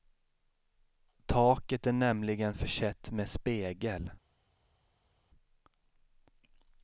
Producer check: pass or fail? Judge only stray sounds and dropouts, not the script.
pass